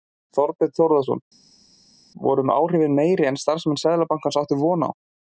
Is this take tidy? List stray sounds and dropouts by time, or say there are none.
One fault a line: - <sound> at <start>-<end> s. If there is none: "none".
none